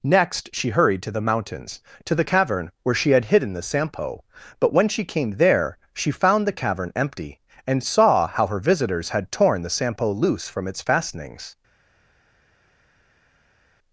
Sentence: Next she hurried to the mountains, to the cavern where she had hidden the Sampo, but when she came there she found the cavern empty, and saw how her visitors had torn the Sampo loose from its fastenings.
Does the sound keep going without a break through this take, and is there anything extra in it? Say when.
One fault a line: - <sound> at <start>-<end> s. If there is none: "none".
none